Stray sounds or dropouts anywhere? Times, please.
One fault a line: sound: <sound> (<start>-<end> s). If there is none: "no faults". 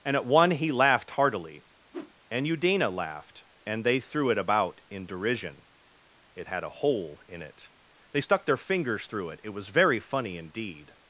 sound: whoosh (1.9-2.1 s)